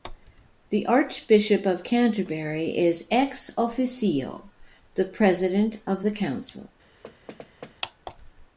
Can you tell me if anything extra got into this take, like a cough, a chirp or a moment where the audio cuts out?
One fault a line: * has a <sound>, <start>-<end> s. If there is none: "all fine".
* has a thud, 7.0-7.8 s